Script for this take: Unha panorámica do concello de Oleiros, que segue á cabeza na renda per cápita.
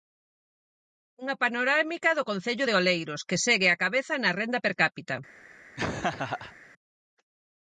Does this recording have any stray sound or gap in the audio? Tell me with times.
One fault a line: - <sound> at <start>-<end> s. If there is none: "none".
- laugh at 5.8-6.6 s